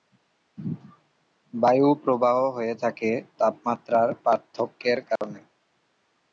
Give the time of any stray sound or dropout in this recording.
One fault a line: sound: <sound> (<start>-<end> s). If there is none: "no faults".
sound: dropout (5.2-5.2 s)